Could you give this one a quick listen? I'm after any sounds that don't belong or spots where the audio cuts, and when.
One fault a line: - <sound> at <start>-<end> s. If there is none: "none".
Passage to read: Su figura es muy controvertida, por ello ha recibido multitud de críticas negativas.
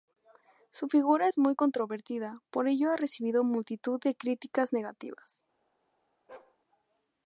- bark at 6.3-6.6 s